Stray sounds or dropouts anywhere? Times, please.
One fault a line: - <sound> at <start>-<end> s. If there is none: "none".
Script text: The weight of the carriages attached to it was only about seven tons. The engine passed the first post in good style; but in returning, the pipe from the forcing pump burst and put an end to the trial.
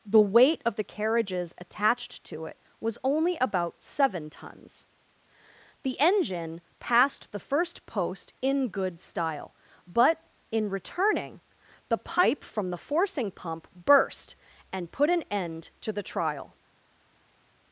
none